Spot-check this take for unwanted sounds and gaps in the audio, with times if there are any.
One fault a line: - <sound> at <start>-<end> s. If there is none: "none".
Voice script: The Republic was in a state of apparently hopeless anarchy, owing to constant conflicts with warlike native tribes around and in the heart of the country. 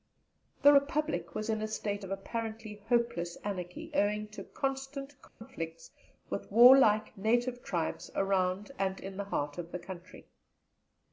- dropout at 5.3-5.4 s